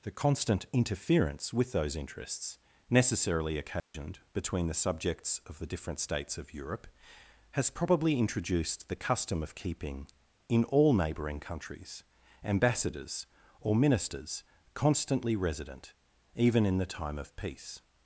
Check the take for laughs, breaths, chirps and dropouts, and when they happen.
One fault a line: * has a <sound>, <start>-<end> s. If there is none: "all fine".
* has a dropout, 3.8-3.9 s